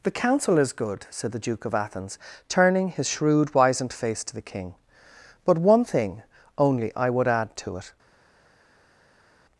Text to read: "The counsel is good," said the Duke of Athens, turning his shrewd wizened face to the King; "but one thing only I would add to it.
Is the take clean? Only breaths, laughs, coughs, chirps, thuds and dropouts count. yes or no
yes